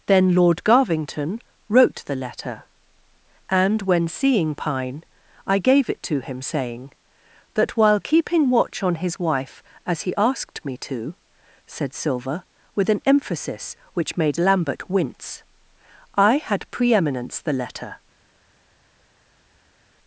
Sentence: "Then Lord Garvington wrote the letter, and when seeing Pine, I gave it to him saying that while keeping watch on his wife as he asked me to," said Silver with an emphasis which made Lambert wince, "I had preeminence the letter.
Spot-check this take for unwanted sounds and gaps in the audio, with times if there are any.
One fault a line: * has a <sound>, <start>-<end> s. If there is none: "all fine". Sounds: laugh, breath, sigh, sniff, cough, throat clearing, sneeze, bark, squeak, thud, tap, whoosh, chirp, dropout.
all fine